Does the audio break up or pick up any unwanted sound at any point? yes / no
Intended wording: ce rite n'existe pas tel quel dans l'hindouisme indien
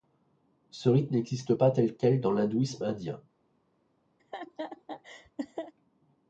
yes